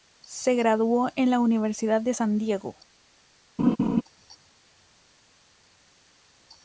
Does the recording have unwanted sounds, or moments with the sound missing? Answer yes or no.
yes